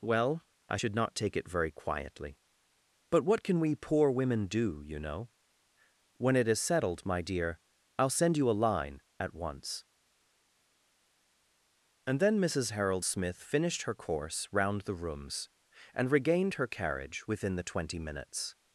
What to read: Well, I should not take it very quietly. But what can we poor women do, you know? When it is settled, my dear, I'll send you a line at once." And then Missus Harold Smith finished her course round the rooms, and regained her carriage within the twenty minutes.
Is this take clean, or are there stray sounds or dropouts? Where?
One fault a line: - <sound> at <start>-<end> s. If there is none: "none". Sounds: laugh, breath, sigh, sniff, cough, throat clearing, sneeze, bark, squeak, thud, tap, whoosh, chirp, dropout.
none